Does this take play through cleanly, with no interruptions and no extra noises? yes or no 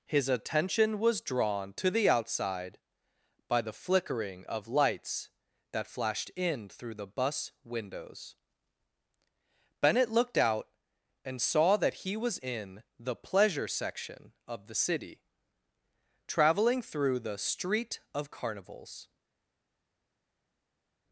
yes